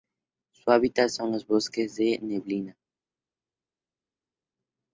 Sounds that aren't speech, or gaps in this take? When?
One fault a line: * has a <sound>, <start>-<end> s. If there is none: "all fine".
all fine